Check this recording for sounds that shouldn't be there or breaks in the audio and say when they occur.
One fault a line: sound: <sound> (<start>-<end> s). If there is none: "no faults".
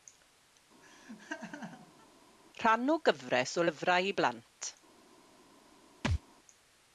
sound: laugh (0.8-2.1 s)
sound: thud (6.0-6.2 s)